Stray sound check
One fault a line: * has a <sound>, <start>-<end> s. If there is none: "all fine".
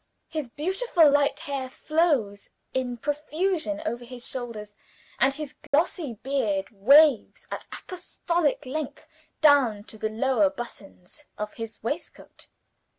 * has a dropout, 5.7-5.7 s